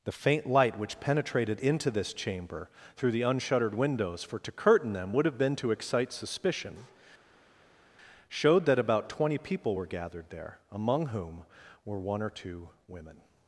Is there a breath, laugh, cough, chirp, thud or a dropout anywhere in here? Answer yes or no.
no